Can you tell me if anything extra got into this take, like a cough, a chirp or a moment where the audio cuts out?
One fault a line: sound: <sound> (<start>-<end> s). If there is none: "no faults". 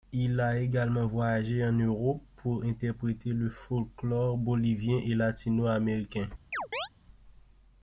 sound: chirp (6.5-6.9 s)